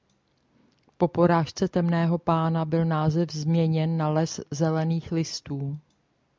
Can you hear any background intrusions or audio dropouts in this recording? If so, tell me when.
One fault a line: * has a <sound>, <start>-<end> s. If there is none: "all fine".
all fine